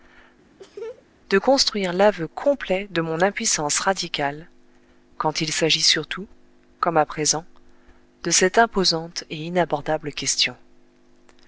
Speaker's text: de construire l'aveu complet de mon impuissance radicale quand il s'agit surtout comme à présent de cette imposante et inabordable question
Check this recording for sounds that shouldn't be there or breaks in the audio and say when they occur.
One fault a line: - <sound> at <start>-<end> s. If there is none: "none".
- laugh at 0.6-1.1 s